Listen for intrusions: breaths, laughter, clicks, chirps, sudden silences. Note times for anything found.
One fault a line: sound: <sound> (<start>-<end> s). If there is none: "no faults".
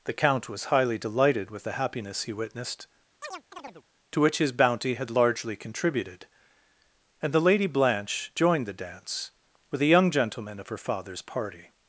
sound: chirp (3.2-3.8 s)